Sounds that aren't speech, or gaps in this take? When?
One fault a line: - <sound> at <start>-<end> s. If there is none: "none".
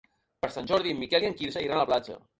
none